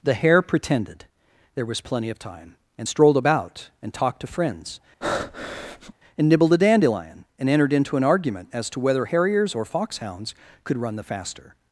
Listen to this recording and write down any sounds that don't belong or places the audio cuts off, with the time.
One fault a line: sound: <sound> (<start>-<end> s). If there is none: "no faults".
sound: breath (5.0-5.9 s)